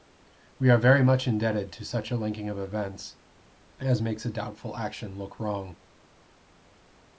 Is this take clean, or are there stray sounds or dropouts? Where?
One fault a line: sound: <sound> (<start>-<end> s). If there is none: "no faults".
no faults